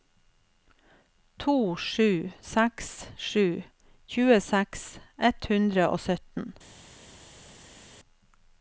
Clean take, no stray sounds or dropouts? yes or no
yes